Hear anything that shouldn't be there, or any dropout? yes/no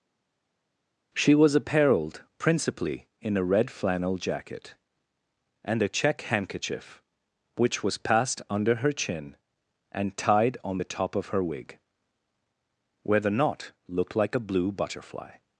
no